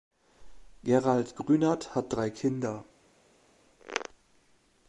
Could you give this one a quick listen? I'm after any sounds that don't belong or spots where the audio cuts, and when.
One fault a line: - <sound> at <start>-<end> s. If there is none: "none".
none